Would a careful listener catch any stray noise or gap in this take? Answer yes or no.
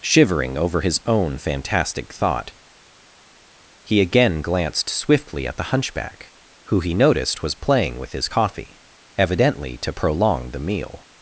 no